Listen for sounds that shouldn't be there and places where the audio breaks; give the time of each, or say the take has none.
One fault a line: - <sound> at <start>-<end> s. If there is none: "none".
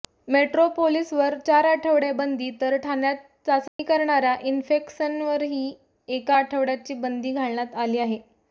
- dropout at 3.7-3.8 s